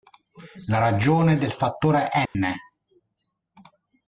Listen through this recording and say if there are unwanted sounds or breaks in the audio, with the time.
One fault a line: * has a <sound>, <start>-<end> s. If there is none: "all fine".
* has a dropout, 2.3-2.4 s